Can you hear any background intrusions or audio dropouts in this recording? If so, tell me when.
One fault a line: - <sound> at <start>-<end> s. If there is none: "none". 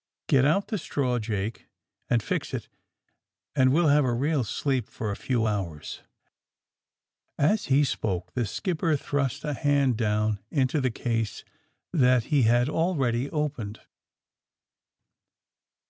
none